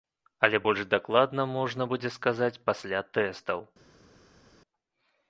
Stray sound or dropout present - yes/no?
no